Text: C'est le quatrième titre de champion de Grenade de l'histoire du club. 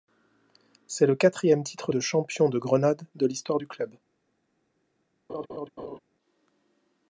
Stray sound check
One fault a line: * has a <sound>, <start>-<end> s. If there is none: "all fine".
* has a laugh, 5.3-6.0 s